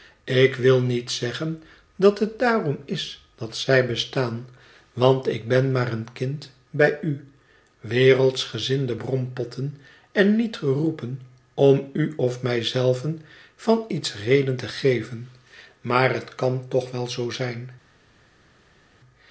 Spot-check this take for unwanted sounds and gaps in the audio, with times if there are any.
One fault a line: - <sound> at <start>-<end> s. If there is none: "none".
none